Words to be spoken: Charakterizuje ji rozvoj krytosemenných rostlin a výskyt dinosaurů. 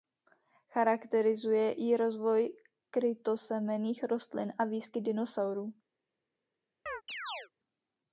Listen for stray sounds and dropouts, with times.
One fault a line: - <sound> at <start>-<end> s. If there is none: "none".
- chirp at 6.9-7.5 s